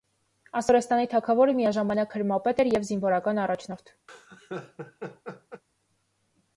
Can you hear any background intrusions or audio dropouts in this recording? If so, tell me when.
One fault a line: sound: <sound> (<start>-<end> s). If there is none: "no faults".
sound: laugh (4.1-5.6 s)